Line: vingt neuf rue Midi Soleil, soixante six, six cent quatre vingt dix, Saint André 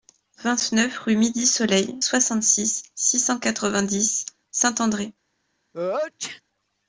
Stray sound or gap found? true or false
true